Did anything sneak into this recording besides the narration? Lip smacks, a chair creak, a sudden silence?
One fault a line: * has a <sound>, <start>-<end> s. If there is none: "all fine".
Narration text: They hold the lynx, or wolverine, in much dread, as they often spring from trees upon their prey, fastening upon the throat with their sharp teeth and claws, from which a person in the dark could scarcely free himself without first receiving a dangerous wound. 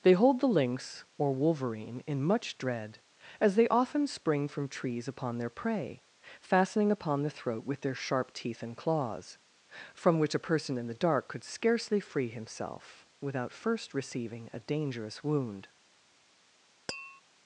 * has a tap, 16.9-17.2 s